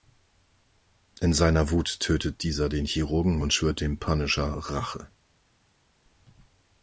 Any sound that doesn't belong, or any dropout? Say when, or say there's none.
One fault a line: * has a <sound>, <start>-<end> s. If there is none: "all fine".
all fine